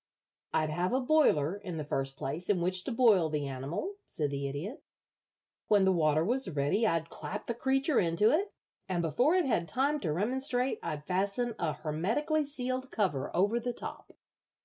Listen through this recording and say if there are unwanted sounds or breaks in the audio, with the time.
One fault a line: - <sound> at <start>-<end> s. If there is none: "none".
none